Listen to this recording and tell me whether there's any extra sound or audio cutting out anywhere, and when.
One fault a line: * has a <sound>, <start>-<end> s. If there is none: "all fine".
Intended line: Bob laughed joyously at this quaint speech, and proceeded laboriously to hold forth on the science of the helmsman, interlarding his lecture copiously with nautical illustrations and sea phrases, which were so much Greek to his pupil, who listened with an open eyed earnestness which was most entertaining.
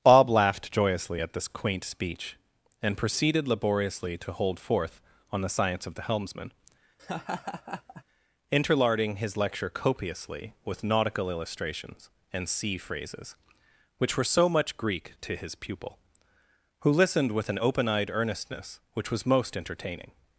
* has a laugh, 7.0-8.0 s